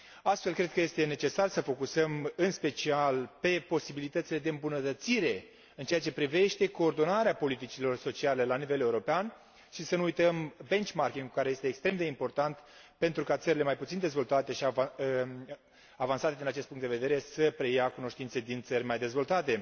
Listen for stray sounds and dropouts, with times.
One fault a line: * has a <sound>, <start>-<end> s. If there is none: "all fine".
all fine